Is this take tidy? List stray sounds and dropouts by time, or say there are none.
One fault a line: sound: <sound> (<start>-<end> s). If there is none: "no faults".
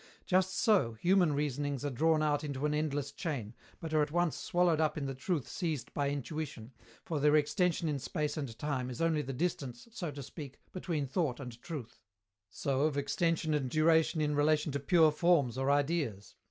no faults